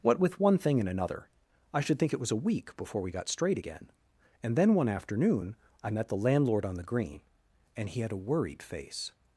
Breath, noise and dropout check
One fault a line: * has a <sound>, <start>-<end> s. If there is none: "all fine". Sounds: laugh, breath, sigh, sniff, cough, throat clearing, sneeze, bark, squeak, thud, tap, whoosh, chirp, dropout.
all fine